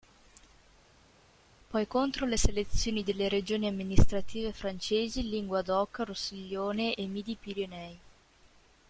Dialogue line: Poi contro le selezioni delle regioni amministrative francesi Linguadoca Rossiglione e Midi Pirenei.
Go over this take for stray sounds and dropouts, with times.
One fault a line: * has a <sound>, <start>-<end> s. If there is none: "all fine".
all fine